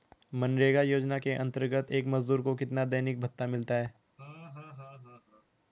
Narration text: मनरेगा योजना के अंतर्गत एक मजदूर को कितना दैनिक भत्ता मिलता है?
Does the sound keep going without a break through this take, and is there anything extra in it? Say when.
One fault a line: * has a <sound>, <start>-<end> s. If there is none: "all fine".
* has a laugh, 4.2-5.5 s